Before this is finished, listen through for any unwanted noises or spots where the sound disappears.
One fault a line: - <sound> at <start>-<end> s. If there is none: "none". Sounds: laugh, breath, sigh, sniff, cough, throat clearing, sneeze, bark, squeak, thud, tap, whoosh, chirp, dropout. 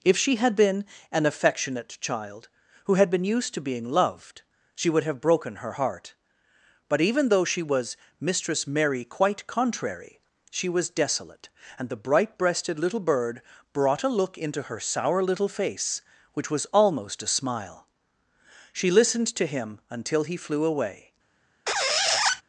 - squeak at 21.7-22.4 s